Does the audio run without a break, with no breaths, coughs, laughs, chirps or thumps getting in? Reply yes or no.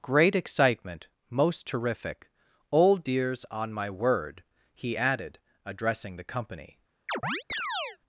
no